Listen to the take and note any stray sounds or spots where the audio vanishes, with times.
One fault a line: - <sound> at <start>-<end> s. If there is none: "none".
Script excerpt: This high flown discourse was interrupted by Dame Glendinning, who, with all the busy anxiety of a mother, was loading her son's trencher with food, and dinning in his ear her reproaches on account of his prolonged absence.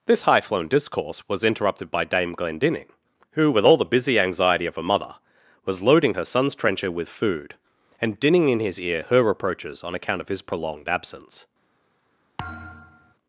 - thud at 12.4-13.1 s